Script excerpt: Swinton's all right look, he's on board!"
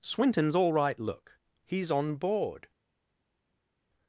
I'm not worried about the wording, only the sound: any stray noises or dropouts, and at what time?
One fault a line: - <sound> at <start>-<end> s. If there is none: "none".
none